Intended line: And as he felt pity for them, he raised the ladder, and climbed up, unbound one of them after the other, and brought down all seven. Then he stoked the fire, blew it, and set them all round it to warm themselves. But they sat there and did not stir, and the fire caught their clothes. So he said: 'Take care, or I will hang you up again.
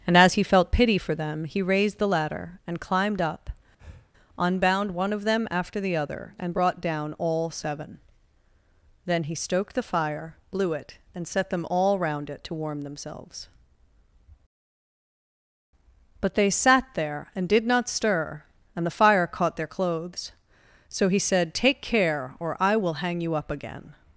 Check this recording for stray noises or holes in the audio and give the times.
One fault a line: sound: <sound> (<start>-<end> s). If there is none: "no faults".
sound: breath (3.8-4.1 s)